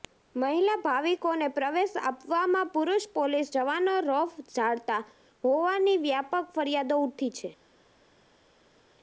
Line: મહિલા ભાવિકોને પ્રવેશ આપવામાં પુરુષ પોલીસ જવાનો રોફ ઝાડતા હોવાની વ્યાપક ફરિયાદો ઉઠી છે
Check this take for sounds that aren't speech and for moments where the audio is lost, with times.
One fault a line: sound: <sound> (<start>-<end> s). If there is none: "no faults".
no faults